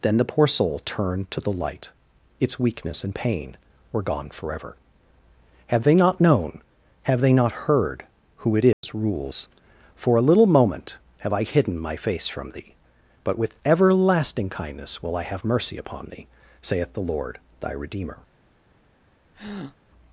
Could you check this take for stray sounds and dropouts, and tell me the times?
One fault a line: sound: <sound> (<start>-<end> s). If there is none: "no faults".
sound: dropout (8.7-8.8 s)
sound: breath (19.3-19.8 s)